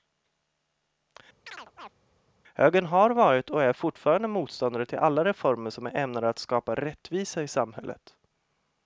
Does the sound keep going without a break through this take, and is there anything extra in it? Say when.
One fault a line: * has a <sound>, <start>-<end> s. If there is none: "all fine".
* has a chirp, 1.5-2.0 s